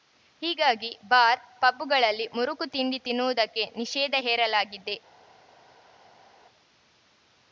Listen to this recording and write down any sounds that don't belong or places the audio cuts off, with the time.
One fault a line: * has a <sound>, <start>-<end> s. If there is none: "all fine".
all fine